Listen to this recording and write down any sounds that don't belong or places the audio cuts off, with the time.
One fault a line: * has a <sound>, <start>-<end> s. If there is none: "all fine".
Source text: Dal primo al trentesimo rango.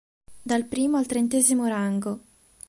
all fine